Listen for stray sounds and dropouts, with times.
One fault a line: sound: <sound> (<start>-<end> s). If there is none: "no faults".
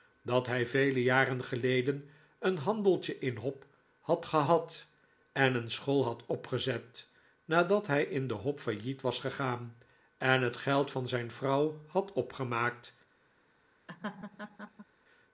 sound: laugh (13.9-14.9 s)